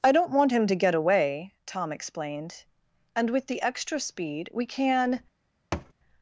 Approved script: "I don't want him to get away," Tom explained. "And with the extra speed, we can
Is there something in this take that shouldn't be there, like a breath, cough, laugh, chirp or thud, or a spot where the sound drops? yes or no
yes